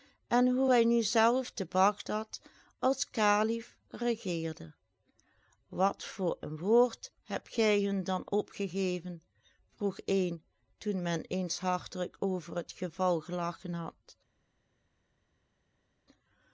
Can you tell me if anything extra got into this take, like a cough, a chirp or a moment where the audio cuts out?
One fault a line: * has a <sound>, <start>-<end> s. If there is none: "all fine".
all fine